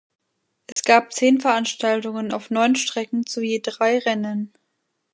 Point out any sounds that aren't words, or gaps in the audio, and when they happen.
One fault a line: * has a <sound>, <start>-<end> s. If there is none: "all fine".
* has a dropout, 0.7-0.8 s